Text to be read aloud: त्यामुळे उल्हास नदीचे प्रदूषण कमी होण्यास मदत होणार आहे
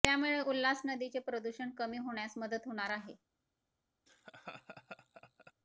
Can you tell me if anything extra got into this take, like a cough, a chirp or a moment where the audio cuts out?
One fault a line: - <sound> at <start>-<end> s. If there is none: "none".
- laugh at 4.1-5.5 s